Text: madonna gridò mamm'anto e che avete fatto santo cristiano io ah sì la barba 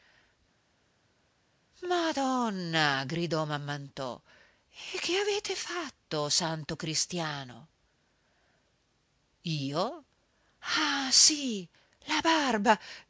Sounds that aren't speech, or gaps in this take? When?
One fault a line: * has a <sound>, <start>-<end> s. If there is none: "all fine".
all fine